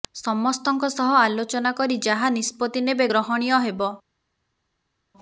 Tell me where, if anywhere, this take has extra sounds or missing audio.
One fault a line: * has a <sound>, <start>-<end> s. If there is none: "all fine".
all fine